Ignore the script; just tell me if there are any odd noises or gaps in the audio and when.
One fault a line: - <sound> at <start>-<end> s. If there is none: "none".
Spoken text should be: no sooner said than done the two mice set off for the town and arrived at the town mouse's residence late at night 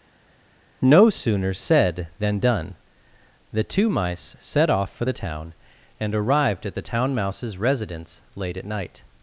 none